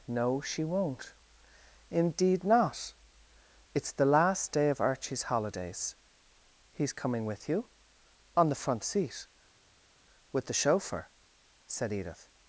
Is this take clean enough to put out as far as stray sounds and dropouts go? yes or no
yes